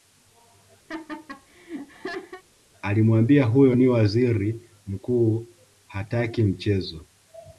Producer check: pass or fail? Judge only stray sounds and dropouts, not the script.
fail